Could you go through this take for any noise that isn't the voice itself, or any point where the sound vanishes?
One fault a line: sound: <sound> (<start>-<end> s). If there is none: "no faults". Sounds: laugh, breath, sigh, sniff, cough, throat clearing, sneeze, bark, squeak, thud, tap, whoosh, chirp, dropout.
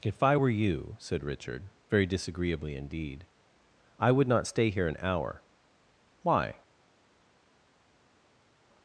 no faults